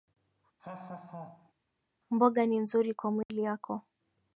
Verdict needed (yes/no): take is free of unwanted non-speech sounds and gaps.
no